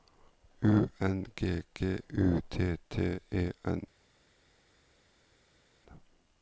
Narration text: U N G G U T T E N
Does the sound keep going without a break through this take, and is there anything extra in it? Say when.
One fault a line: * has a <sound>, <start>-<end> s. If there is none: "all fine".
all fine